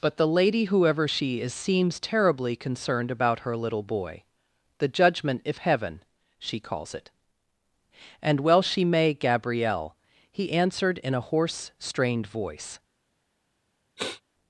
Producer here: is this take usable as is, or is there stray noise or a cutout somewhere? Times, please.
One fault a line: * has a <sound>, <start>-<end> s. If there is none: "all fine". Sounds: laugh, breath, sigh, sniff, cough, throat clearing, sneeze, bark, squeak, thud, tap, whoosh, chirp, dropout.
* has a sniff, 14.0-14.2 s